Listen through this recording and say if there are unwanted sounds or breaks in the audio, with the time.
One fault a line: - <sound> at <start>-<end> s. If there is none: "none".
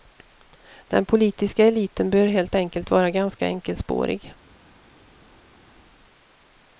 none